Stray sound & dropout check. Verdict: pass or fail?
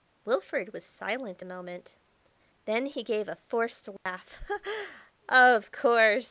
fail